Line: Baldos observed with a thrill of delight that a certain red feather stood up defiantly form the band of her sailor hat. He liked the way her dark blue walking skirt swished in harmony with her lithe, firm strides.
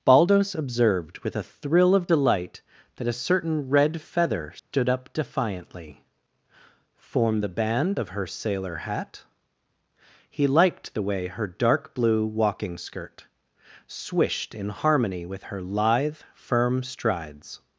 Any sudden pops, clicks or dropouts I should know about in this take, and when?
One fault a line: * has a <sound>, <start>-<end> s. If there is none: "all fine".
* has a dropout, 4.6-4.7 s